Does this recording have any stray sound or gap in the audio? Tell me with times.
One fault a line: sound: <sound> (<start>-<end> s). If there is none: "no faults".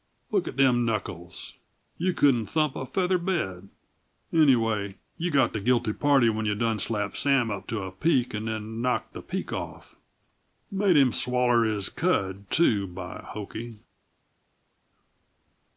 no faults